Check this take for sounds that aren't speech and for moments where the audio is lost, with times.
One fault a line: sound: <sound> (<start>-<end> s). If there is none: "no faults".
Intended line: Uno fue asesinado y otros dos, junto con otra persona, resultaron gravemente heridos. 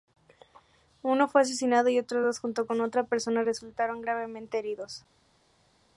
no faults